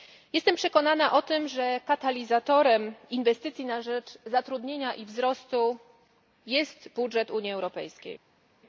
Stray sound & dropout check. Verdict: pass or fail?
pass